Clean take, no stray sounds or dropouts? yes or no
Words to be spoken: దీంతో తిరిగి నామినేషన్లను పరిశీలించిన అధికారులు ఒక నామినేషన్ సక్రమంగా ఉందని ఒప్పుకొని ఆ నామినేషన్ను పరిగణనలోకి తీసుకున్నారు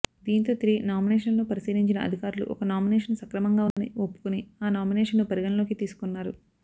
no